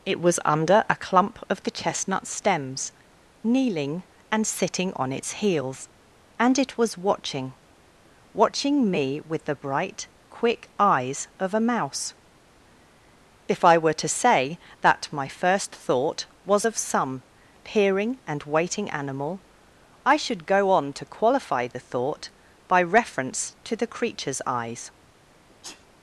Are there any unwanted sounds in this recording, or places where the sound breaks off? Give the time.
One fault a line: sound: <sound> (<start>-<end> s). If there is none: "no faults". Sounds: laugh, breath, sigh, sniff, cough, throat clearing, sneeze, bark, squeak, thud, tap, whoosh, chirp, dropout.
sound: sneeze (25.5-25.9 s)